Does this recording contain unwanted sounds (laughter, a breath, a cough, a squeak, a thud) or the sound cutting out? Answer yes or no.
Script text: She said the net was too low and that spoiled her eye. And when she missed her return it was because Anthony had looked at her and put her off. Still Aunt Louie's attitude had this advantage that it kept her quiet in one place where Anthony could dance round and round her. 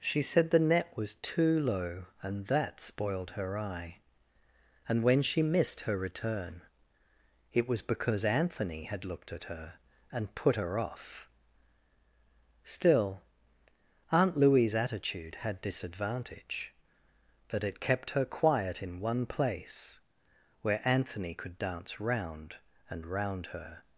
no